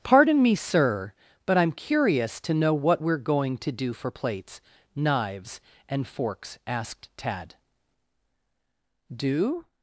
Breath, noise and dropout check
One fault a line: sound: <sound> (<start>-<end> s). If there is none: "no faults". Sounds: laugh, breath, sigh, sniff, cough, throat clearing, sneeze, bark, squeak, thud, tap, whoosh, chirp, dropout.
no faults